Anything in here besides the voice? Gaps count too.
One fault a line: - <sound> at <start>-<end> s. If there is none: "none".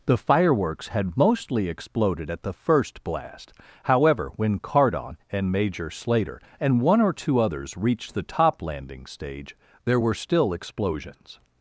none